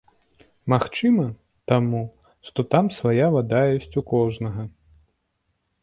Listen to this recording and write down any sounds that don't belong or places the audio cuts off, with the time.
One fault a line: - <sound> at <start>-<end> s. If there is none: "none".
none